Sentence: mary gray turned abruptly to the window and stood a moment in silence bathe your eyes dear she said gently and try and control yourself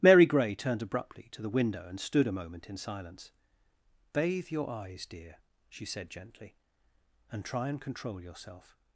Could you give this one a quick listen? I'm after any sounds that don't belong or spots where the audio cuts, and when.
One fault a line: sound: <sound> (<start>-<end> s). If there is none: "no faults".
no faults